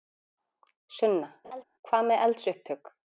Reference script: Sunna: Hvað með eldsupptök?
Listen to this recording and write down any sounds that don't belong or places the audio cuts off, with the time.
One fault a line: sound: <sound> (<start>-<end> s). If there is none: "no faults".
sound: laugh (1.4-1.6 s)